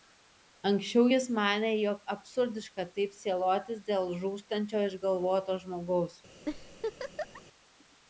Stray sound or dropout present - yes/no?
yes